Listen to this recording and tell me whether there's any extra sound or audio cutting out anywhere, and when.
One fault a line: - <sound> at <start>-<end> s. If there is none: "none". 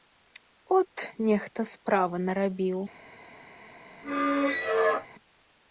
- squeak at 4.0-5.1 s